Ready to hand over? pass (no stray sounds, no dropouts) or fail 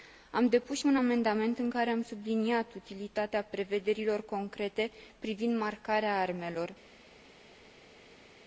pass